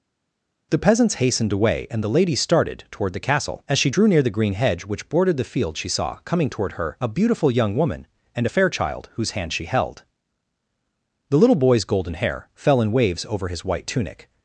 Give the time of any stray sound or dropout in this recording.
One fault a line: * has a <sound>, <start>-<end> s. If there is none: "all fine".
all fine